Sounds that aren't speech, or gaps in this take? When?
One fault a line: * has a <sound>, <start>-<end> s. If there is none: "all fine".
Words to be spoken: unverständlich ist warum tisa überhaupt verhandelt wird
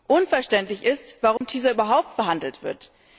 * has a dropout, 1.4-1.4 s